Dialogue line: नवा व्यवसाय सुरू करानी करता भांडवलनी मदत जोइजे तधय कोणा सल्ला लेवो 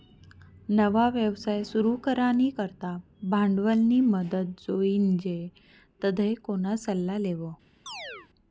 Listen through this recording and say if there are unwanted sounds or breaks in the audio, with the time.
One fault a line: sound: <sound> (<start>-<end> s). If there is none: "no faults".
sound: chirp (7.9-8.3 s)